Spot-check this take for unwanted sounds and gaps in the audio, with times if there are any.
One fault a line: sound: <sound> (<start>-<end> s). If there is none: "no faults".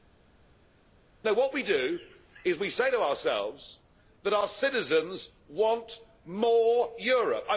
no faults